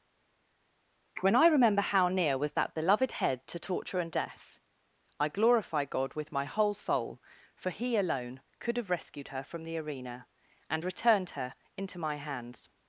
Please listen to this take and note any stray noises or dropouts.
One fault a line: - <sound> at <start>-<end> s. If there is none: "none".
none